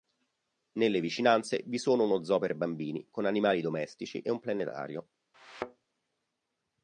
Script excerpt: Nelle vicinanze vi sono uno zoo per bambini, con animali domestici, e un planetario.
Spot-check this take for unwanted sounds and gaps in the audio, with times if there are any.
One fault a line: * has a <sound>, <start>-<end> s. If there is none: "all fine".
* has a thud, 5.3-5.9 s